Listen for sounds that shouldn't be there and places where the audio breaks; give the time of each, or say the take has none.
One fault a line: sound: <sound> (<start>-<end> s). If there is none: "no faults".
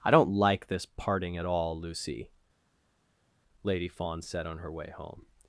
no faults